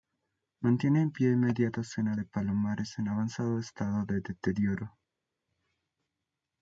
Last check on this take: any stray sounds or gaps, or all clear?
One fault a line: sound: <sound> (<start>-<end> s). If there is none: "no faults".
no faults